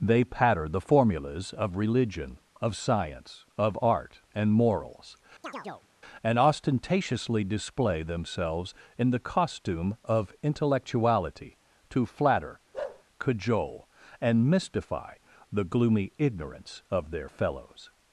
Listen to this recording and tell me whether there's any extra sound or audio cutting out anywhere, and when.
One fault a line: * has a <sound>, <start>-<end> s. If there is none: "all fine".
* has a chirp, 5.4-5.9 s
* has a bark, 12.7-13.0 s